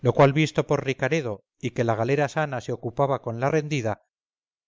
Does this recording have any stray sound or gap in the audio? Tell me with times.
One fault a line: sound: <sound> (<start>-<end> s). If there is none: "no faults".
no faults